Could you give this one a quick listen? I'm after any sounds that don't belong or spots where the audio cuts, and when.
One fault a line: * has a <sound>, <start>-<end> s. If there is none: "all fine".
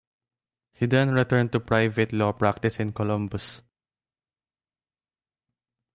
all fine